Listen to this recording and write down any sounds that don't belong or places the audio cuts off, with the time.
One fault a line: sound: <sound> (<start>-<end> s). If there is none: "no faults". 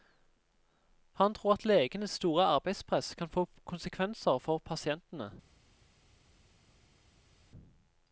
no faults